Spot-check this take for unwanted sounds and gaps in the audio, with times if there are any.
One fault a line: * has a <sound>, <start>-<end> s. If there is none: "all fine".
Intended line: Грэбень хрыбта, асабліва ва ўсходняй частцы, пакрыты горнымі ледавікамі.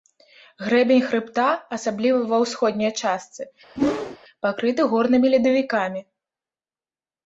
* has a whoosh, 3.8-4.2 s